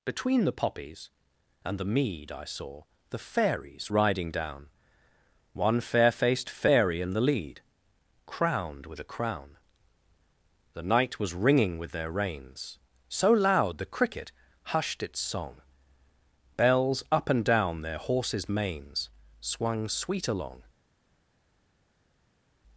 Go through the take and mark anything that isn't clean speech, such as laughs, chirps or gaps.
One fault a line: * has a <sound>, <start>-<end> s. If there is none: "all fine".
all fine